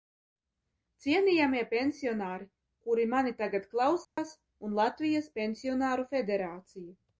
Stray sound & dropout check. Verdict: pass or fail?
fail